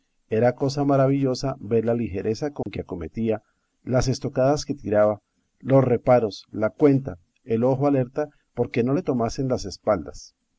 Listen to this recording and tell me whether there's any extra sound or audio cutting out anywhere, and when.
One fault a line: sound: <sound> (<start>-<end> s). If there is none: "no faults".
sound: dropout (2.6-2.7 s)